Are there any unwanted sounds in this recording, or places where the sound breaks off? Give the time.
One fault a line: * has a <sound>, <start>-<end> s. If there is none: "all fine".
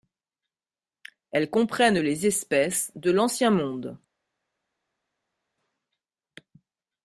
all fine